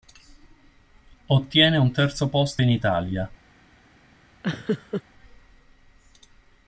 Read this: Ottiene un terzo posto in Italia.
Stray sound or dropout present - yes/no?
yes